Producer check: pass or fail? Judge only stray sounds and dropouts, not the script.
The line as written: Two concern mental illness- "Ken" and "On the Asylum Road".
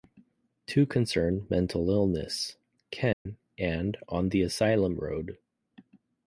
fail